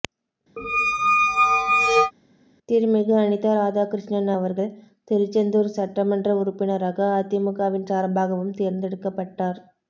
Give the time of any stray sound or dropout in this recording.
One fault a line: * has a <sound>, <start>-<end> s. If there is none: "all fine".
* has a squeak, 0.6-2.1 s